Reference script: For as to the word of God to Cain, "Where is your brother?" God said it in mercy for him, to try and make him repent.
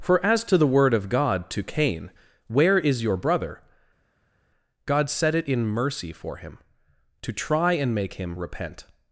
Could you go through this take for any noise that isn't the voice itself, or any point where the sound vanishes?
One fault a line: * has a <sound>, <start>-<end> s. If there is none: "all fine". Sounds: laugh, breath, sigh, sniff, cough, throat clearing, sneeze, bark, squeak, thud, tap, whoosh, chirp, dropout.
all fine